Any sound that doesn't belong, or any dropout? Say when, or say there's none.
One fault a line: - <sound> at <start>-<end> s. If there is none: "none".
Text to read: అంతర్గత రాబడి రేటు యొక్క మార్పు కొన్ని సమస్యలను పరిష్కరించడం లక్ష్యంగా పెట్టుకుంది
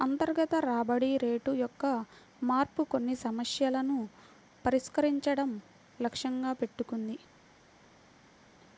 none